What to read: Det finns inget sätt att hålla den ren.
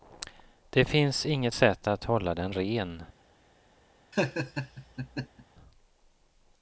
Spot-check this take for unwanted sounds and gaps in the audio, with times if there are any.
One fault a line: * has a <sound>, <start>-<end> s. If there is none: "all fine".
* has a laugh, 4.1-5.5 s